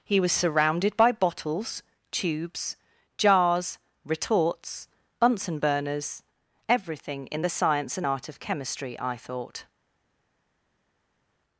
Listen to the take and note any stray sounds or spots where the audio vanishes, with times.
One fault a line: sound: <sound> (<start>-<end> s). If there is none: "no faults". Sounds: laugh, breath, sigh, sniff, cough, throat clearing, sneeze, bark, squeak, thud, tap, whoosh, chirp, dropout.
no faults